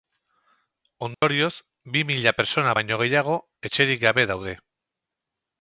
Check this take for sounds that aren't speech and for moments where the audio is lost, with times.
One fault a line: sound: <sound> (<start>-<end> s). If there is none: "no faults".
sound: dropout (1.1-1.2 s)